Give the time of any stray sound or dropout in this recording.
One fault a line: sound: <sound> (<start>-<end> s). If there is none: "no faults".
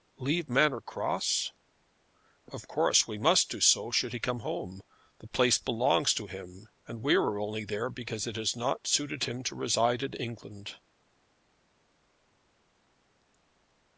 no faults